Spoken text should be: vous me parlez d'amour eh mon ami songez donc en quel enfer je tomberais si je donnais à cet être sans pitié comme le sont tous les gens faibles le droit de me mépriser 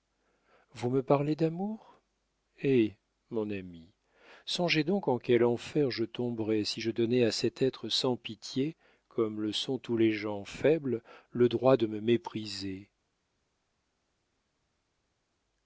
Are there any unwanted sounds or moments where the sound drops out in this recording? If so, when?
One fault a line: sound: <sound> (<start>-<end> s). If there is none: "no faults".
no faults